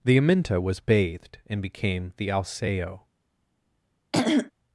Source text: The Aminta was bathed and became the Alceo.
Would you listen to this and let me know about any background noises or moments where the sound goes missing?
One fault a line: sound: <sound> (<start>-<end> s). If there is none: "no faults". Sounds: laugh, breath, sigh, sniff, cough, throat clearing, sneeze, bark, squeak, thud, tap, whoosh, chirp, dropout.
sound: throat clearing (4.1-4.5 s)